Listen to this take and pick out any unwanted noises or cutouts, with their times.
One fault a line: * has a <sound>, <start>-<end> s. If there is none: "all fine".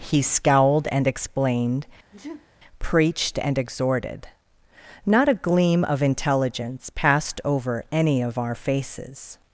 * has a sneeze, 2.1-2.5 s